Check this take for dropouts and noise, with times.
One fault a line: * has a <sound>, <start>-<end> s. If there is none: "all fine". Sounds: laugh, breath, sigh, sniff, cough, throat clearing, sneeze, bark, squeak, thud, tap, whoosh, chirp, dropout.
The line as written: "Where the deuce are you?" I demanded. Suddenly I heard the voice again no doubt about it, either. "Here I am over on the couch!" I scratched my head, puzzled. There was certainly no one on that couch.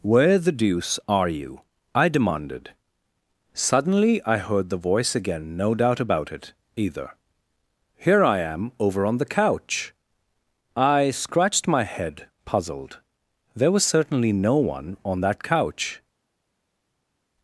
all fine